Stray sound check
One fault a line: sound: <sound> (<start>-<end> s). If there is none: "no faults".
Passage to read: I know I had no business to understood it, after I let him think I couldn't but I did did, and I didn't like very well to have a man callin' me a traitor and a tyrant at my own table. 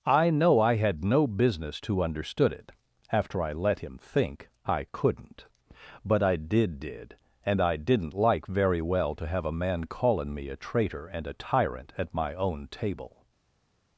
no faults